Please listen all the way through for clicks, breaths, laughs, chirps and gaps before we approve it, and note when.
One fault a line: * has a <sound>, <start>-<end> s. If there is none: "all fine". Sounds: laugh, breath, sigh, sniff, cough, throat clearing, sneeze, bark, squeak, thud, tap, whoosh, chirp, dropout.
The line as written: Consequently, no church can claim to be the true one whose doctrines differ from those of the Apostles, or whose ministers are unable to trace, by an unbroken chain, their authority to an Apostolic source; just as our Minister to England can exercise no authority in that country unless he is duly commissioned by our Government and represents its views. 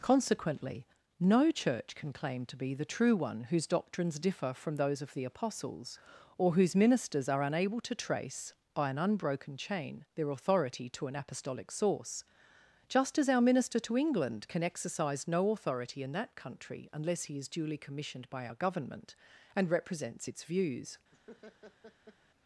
* has a laugh, 21.1-22.2 s